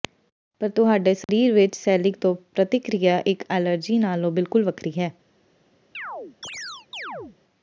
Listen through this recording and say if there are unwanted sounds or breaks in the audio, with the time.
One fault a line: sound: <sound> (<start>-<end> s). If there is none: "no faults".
sound: dropout (1.2-1.3 s)
sound: chirp (5.9-7.4 s)